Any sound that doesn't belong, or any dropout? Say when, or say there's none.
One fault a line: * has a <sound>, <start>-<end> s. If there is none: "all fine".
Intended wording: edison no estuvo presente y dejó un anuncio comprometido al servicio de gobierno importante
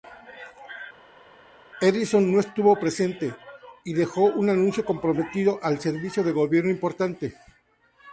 all fine